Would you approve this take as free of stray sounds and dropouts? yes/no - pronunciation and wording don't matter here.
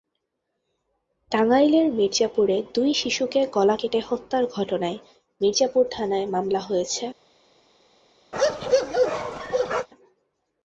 no